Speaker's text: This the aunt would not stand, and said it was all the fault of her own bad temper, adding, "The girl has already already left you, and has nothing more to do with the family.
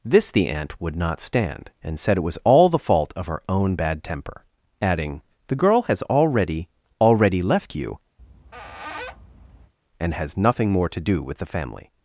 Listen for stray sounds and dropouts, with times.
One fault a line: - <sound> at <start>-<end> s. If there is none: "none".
- squeak at 8.2-9.7 s